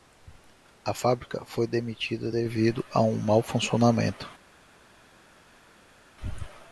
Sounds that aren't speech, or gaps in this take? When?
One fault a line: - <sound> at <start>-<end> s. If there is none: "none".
none